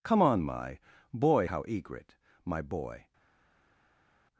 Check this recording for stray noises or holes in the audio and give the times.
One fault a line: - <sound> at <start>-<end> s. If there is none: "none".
none